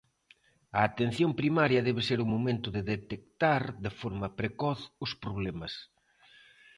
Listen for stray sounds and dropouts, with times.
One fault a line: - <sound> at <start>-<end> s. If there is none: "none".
none